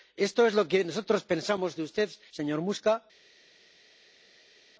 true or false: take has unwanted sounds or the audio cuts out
false